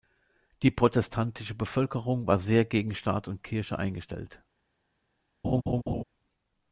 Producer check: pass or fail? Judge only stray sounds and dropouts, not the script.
fail